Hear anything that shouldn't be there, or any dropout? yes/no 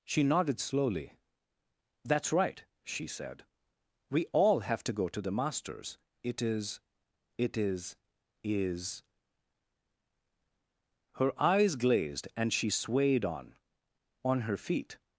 no